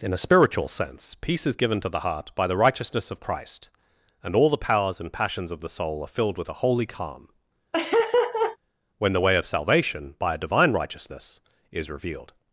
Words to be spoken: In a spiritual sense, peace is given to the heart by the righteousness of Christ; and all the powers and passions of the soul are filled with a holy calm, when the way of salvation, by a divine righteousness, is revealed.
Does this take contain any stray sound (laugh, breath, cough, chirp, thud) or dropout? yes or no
yes